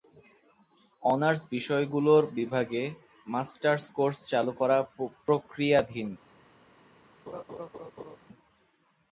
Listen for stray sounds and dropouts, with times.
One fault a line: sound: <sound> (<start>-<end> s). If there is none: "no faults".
sound: laugh (7.3-8.2 s)